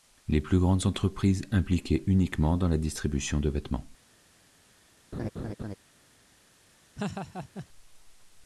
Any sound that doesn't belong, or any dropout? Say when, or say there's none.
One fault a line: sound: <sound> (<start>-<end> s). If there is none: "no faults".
sound: laugh (5.1-5.8 s)
sound: laugh (7.0-7.7 s)